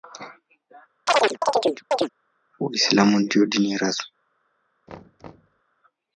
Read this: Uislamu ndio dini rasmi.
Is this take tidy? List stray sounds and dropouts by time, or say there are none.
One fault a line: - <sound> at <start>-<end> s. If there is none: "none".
- chirp at 1.1-2.1 s
- thud at 4.9-5.6 s